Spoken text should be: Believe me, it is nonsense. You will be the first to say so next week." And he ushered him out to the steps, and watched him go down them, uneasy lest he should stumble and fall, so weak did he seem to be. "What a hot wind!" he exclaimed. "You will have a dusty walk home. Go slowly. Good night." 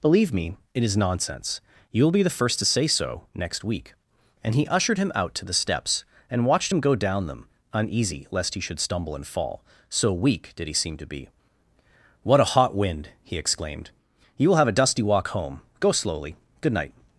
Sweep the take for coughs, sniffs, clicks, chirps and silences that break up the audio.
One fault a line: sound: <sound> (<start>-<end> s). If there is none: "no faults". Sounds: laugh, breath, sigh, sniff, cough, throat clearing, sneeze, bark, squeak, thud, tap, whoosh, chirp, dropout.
no faults